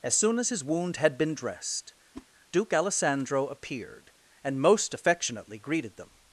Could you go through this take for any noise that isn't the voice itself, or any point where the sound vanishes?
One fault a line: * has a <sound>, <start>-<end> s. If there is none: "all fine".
* has a whoosh, 2.1-2.3 s